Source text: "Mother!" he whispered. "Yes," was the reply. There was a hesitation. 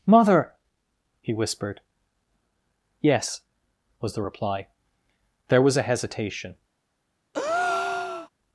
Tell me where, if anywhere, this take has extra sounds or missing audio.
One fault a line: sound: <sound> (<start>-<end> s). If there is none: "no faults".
sound: breath (7.3-8.3 s)